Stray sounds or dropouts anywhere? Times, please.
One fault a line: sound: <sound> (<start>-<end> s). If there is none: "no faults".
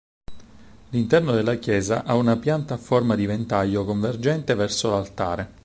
no faults